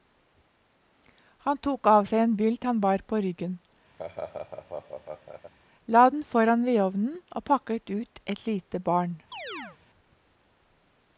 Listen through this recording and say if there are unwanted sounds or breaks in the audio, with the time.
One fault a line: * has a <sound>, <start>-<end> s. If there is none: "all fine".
* has a laugh, 4.0-5.5 s
* has a chirp, 9.3-9.8 s